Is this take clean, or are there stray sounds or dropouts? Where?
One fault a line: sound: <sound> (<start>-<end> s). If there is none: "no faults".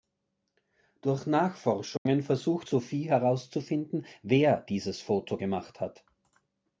sound: dropout (2.0-2.1 s)